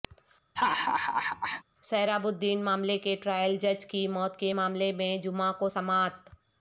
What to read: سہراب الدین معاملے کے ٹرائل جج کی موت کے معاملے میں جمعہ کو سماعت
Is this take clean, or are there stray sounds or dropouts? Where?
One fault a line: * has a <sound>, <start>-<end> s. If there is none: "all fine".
* has a laugh, 0.6-1.6 s